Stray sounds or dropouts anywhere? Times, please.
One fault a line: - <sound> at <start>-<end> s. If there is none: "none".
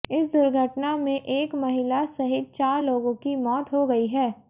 none